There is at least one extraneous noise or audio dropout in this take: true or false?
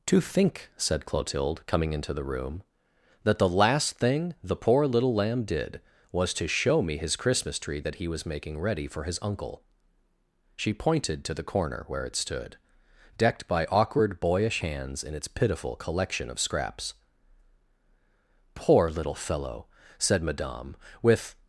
false